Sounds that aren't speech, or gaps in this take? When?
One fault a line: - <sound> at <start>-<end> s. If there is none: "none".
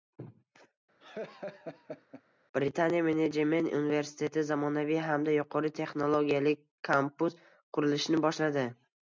- laugh at 1.0-2.2 s